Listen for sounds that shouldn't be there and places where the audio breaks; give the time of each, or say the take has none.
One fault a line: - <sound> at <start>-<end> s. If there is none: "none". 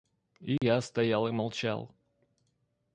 - dropout at 0.6-0.6 s